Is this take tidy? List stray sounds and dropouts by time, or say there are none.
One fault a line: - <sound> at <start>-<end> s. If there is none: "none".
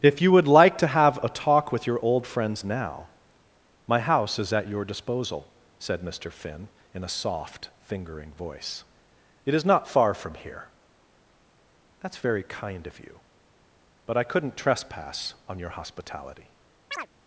- chirp at 16.9-17.1 s